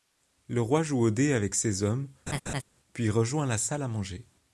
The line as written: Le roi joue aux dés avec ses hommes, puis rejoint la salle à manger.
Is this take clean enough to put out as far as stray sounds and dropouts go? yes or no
no